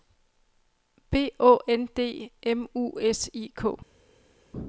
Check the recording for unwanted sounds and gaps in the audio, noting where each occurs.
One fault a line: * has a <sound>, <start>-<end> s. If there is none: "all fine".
all fine